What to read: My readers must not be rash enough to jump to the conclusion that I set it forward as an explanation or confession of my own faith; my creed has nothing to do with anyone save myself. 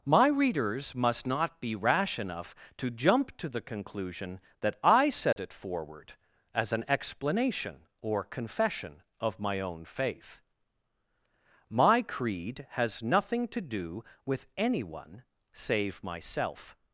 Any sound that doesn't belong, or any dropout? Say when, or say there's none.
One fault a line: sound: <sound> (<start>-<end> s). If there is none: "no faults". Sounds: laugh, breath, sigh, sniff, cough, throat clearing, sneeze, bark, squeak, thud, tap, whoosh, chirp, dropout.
sound: dropout (5.3-5.4 s)